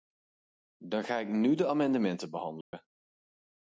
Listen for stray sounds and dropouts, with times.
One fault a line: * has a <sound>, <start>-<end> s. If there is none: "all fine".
* has a dropout, 2.6-2.7 s